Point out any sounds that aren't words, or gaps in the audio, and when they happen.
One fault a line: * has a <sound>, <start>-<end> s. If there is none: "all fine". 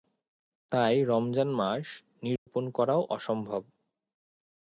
* has a dropout, 2.4-2.5 s